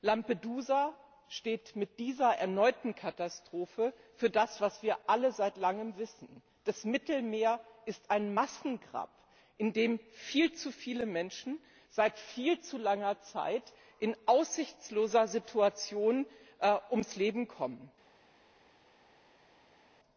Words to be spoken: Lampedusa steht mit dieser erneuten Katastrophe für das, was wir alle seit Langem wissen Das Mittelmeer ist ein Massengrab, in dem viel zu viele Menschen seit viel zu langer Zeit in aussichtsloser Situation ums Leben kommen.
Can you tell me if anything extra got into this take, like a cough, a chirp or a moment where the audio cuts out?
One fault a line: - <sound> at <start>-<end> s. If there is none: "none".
none